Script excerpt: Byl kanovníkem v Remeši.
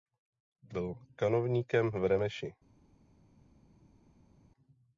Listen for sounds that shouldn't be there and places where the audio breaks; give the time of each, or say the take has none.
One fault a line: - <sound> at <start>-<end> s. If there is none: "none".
none